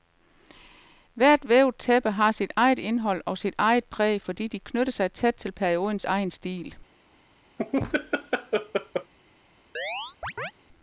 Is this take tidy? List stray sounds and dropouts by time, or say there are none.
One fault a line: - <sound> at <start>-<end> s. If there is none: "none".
- laugh at 7.6-9.1 s
- chirp at 9.7-10.5 s